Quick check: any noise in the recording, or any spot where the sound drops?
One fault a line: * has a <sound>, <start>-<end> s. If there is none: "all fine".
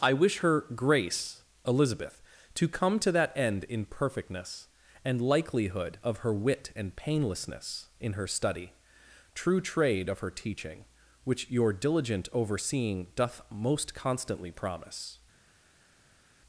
all fine